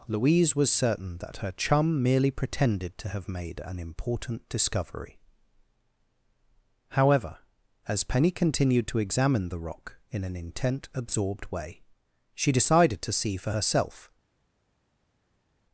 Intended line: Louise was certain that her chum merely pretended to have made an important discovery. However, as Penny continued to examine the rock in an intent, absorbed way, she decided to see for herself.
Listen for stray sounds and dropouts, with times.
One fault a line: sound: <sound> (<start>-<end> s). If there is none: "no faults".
no faults